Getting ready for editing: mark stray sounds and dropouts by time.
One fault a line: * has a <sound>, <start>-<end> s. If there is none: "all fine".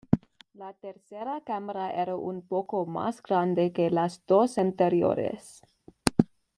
all fine